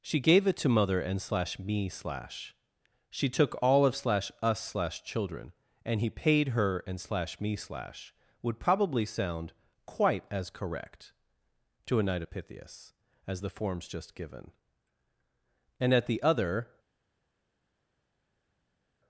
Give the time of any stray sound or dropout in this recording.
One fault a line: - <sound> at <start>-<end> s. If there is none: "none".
none